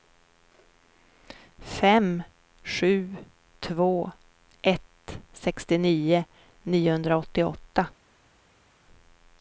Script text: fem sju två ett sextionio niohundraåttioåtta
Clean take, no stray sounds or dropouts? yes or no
yes